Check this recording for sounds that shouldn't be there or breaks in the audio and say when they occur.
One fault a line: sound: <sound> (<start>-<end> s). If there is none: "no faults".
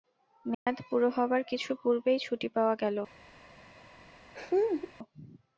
sound: dropout (0.5-0.7 s)
sound: laugh (4.3-4.9 s)